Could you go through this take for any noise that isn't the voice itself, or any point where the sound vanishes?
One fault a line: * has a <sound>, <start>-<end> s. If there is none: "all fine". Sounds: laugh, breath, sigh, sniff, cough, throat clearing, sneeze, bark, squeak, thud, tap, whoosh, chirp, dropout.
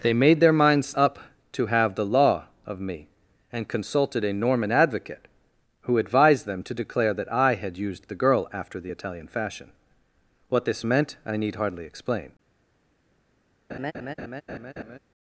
* has a laugh, 13.7-15.0 s